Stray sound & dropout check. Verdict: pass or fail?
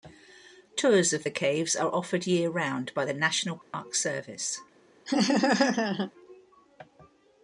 fail